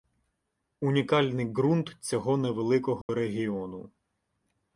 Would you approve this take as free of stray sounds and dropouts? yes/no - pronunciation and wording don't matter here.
no